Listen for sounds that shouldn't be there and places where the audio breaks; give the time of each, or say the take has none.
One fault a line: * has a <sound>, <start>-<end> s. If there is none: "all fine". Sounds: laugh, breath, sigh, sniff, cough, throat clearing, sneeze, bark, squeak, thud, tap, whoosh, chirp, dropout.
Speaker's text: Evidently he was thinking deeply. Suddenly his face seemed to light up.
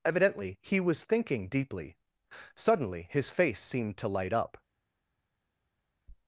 all fine